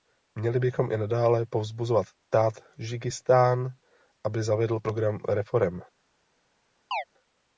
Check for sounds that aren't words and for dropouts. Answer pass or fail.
fail